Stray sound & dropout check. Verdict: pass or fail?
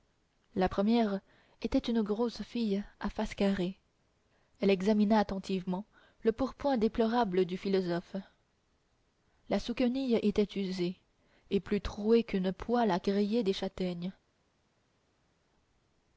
pass